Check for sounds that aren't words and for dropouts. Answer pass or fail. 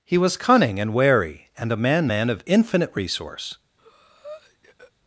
fail